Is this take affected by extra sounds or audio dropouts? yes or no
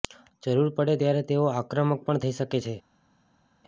no